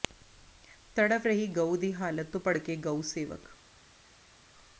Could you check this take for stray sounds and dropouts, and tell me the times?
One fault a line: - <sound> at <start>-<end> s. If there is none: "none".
none